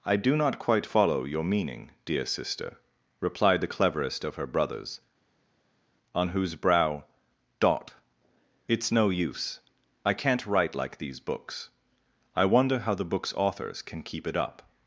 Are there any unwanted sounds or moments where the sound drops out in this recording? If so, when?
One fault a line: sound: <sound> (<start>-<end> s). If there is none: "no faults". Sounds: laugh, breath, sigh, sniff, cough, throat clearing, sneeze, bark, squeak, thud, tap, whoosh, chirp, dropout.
no faults